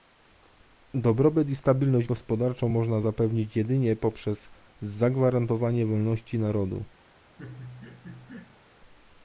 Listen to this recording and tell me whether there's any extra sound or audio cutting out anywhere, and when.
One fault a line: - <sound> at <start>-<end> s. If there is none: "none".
- laugh at 7.4-8.6 s